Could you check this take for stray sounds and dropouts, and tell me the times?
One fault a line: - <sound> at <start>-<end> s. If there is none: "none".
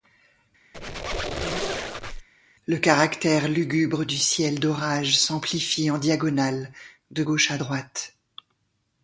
- squeak at 0.7-2.3 s